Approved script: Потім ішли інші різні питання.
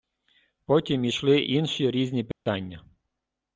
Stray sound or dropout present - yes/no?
yes